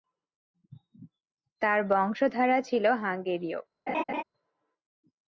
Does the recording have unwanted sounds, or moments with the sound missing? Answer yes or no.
yes